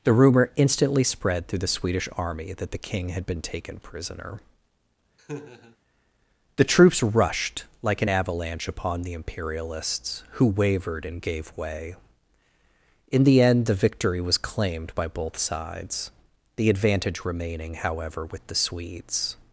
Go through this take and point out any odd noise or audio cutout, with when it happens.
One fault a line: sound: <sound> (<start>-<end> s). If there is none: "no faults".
sound: laugh (5.2-5.8 s)